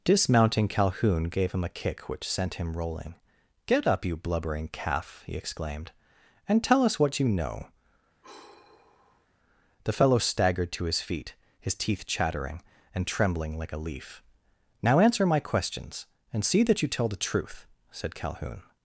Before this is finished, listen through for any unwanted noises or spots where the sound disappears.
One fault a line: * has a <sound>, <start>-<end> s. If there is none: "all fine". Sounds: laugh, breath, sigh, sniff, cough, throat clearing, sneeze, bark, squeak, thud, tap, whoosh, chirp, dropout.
* has a sigh, 8.2-9.3 s